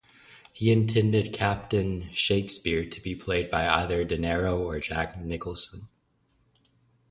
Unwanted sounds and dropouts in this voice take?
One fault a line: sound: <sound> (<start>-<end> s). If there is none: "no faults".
no faults